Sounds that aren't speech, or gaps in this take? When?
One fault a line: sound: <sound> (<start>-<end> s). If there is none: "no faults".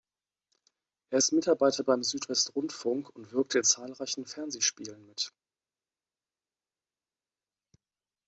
no faults